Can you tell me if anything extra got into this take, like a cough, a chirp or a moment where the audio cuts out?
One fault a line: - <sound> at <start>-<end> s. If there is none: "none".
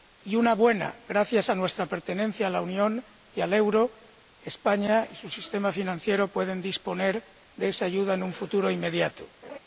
- laugh at 9.4-9.6 s